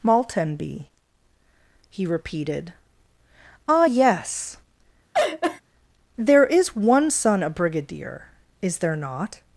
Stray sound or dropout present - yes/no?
yes